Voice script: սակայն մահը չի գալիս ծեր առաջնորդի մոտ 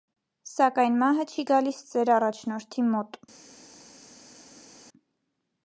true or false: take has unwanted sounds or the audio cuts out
false